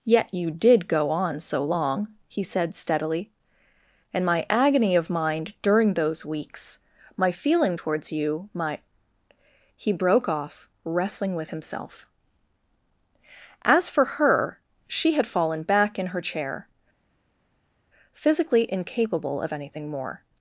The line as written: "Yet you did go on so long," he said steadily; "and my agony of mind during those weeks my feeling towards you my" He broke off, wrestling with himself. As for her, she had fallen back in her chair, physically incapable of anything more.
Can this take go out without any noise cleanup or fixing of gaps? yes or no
yes